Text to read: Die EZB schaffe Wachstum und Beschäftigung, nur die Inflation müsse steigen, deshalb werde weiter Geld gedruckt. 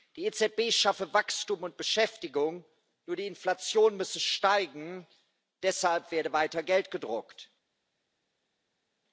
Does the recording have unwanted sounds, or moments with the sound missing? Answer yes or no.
no